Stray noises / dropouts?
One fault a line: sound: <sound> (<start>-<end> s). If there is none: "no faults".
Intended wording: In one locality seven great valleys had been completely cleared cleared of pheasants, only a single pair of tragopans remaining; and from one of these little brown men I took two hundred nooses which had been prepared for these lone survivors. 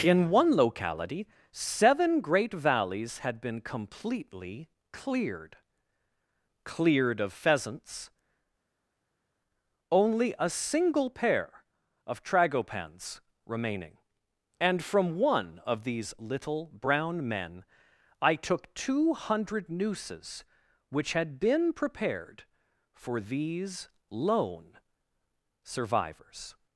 no faults